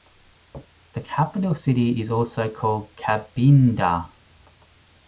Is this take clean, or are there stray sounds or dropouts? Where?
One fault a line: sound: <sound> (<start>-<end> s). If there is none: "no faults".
no faults